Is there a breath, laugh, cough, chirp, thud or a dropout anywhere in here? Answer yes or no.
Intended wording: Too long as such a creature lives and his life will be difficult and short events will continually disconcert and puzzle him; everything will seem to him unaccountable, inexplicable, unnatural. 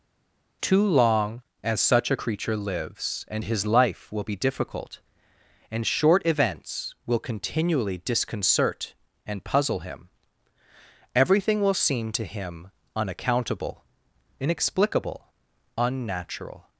no